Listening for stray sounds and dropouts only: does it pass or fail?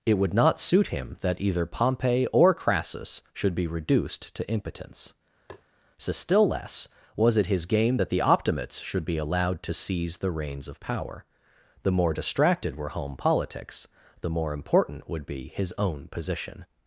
fail